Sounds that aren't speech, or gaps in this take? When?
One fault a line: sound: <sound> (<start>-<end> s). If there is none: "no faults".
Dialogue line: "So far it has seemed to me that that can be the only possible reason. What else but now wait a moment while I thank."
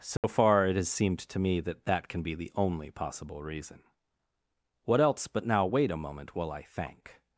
sound: dropout (0.2-0.2 s)